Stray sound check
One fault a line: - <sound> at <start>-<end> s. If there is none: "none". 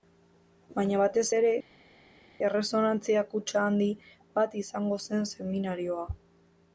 none